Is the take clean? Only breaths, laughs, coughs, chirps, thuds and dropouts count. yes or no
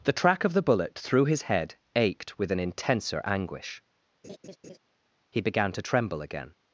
no